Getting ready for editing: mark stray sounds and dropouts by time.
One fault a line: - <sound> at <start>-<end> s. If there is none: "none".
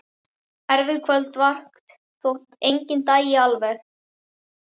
none